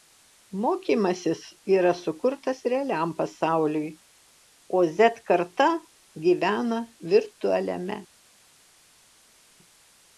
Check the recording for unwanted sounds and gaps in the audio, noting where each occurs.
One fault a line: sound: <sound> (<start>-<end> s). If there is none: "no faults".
no faults